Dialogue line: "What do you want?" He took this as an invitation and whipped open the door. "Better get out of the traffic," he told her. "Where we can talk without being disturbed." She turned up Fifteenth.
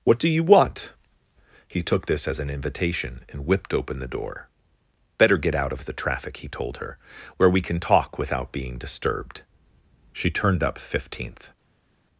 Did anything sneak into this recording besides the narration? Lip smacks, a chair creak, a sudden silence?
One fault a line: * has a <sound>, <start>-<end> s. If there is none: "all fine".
all fine